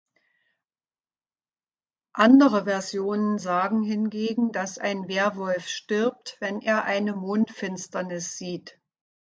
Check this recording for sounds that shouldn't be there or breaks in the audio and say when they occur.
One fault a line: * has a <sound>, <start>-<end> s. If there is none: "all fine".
all fine